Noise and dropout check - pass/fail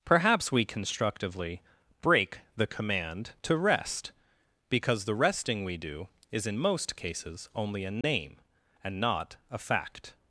fail